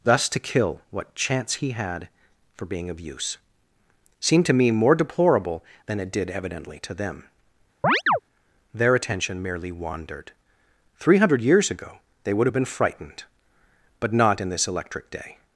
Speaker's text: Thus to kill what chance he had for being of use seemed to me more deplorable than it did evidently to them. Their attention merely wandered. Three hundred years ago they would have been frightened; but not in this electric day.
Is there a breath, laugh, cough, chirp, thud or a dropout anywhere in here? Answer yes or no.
yes